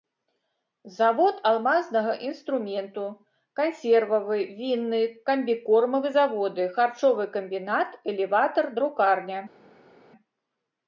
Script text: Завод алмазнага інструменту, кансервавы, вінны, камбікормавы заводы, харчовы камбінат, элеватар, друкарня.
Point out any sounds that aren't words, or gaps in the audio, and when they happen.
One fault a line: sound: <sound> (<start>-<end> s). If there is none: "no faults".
no faults